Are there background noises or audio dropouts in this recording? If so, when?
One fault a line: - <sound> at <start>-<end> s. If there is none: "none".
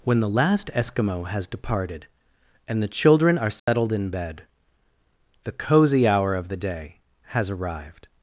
- dropout at 3.6-3.7 s